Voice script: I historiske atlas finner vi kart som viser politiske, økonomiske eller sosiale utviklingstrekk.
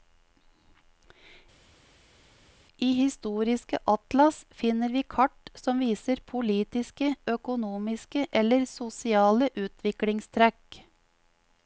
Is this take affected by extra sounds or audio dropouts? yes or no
no